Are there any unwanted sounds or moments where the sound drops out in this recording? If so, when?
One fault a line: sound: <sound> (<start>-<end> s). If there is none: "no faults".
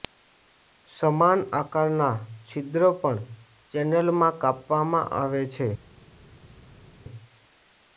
no faults